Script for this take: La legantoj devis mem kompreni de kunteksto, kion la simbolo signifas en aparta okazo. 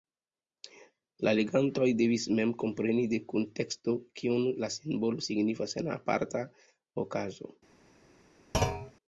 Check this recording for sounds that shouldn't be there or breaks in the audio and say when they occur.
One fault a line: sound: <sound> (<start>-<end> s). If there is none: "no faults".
sound: thud (8.5-8.9 s)